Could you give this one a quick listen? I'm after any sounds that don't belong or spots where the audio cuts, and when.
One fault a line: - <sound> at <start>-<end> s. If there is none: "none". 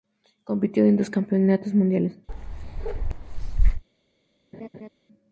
- bark at 2.3-3.8 s
- laugh at 4.5-4.9 s